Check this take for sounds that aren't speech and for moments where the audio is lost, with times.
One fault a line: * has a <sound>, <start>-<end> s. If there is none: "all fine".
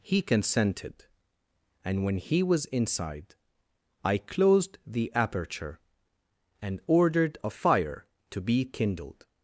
all fine